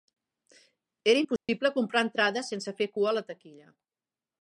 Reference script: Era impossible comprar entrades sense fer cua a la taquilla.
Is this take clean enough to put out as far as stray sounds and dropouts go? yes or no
no